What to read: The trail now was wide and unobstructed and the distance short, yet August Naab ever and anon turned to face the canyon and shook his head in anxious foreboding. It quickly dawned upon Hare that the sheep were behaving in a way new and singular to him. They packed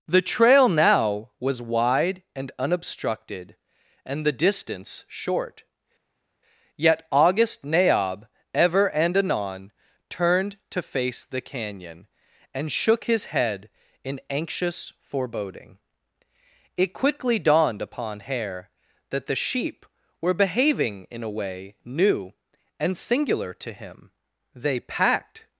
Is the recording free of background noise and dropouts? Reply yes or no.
yes